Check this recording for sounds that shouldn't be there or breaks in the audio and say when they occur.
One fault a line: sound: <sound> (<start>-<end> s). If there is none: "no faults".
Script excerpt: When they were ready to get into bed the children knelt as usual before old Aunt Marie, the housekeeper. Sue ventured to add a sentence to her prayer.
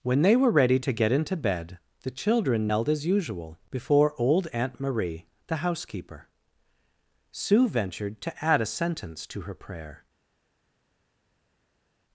no faults